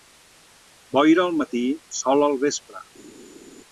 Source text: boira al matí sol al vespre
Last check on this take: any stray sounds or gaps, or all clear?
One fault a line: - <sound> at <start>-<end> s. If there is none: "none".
none